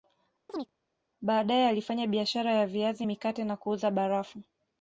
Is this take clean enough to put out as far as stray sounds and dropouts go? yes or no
no